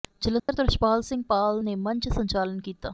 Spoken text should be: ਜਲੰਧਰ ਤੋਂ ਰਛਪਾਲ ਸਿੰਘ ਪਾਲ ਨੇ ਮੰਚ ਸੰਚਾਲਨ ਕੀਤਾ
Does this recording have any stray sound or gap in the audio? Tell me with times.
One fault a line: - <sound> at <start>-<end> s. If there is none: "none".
- dropout at 0.4-0.5 s